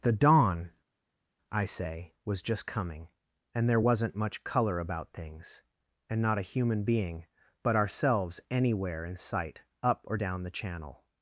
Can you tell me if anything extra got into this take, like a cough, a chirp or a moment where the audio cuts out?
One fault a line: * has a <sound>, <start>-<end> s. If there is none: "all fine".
all fine